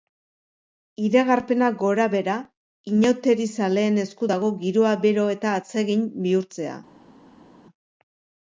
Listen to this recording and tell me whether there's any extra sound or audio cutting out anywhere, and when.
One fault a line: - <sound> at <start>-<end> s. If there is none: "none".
none